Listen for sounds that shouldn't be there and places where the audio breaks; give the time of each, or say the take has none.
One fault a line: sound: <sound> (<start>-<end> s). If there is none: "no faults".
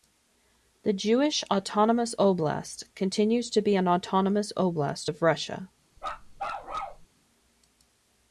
sound: bark (6.0-7.1 s)